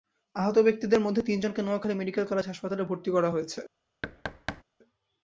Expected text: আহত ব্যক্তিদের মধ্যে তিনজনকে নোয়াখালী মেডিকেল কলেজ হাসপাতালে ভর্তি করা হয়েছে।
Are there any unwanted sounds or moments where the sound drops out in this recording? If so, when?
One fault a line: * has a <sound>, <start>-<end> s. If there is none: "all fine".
* has a thud, 4.0-4.6 s